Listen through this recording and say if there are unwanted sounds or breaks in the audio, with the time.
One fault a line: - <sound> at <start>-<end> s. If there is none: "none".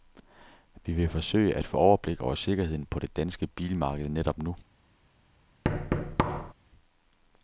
- thud at 5.6-6.5 s